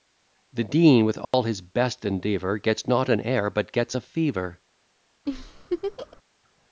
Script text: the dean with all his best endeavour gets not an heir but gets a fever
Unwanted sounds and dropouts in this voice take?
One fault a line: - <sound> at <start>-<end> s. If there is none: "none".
- dropout at 1.2-1.3 s
- laugh at 5.3-6.2 s